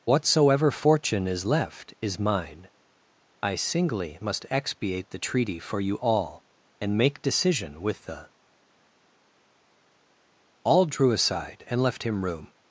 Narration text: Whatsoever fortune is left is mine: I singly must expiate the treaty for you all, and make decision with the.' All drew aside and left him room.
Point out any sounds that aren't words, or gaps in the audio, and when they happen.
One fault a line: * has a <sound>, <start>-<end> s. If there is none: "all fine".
all fine